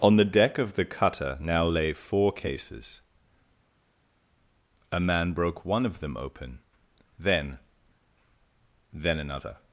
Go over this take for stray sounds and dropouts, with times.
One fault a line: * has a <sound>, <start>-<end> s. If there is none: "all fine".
all fine